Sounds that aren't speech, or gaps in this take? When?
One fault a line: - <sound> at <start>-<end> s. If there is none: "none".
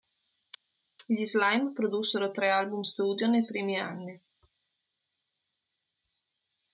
none